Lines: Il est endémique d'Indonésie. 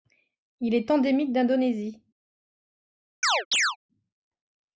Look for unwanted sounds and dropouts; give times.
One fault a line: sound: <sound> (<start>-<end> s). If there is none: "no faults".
sound: chirp (3.2-3.8 s)